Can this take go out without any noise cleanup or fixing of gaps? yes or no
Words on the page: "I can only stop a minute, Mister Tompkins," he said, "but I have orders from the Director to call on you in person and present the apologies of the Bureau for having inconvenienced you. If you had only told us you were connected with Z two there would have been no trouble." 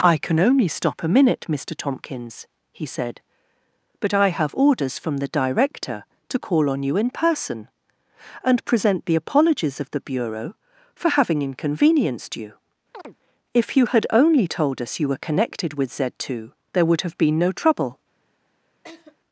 no